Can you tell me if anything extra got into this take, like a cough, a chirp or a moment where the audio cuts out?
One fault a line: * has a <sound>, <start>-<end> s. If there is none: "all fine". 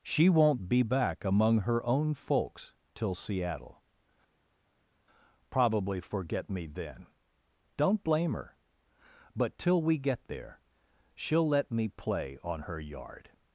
all fine